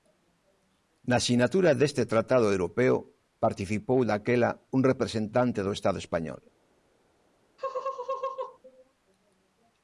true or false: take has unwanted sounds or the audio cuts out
true